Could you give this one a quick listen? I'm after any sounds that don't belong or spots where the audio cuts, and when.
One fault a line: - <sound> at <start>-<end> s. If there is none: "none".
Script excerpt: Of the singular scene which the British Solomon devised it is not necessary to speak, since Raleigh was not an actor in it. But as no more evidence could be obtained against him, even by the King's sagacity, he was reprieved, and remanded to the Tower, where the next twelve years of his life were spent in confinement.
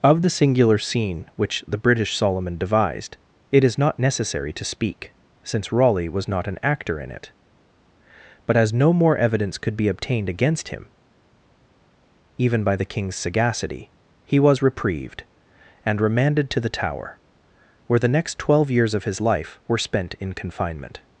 none